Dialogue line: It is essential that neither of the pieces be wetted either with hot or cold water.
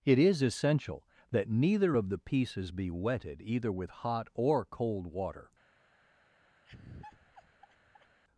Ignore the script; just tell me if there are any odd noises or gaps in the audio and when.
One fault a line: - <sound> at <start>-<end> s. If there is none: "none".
- laugh at 6.6-8.2 s